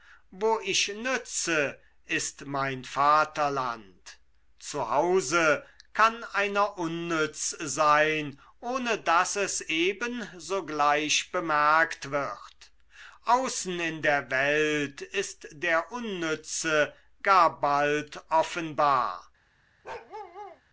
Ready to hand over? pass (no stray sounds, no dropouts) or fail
fail